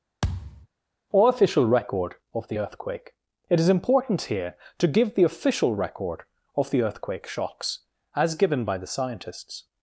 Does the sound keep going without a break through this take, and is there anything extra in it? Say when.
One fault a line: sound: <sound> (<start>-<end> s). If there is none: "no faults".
sound: thud (0.2-0.7 s)